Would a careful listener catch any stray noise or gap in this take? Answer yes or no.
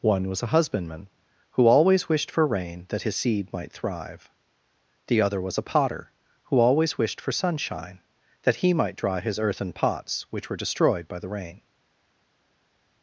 no